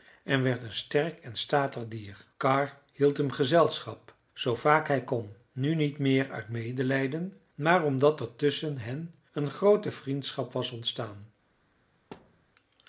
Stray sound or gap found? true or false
true